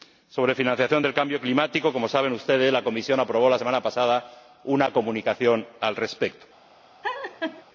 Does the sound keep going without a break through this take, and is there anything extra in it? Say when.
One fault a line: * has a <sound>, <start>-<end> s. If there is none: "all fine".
* has a laugh, 7.0-7.6 s